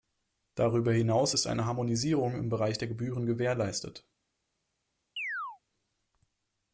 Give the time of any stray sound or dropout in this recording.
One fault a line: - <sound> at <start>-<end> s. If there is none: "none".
- chirp at 5.2-5.6 s